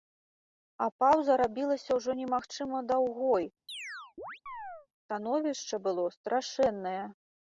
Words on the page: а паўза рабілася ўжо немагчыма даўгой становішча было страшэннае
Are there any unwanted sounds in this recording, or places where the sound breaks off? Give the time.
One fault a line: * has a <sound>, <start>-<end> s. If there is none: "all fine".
* has a chirp, 3.7-4.9 s